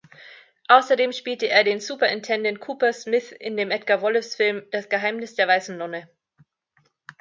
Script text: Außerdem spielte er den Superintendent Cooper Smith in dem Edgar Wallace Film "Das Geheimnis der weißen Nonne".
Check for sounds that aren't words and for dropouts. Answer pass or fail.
pass